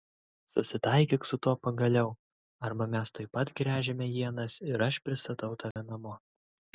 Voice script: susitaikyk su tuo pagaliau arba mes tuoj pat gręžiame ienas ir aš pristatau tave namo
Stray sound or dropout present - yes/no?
yes